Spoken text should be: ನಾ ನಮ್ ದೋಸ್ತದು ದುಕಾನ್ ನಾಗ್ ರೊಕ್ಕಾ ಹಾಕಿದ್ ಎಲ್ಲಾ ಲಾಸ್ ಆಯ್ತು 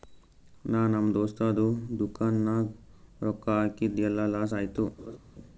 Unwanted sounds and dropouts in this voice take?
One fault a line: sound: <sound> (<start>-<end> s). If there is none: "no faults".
sound: laugh (5.0-5.2 s)